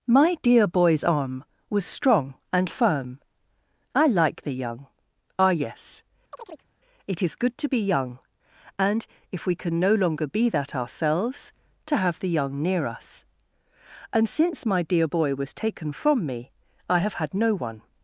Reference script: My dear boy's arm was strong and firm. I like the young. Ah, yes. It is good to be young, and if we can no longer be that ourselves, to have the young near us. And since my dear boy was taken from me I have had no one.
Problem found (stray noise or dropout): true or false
true